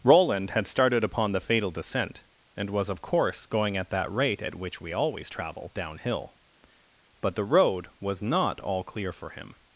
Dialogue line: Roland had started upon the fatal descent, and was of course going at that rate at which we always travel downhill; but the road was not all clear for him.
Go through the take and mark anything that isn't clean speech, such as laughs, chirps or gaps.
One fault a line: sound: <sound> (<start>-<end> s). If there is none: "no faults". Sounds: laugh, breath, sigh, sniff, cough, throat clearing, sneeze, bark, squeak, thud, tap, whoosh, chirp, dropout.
no faults